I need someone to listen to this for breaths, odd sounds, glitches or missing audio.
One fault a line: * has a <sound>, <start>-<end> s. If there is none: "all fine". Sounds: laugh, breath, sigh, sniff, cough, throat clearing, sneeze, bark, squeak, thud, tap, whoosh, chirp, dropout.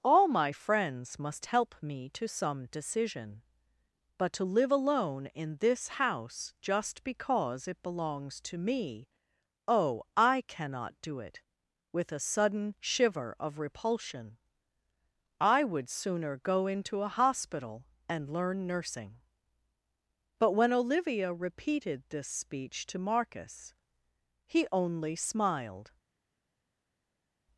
all fine